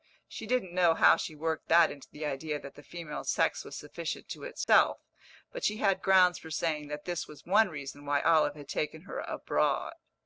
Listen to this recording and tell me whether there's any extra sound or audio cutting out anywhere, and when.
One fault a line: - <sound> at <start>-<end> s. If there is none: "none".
- dropout at 4.6-4.7 s